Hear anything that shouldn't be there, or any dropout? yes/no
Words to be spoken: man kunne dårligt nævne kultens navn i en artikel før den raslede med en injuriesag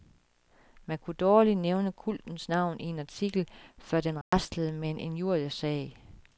yes